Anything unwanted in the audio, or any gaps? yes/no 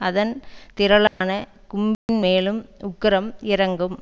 yes